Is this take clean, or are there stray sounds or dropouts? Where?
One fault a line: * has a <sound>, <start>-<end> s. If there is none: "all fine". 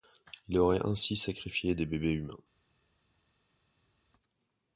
all fine